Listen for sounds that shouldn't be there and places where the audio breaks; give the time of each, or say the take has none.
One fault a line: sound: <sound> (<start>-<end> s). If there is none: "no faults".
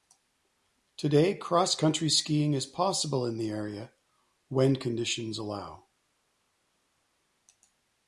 no faults